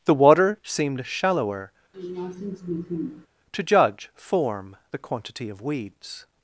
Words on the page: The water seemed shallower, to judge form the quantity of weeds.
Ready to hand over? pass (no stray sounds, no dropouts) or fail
fail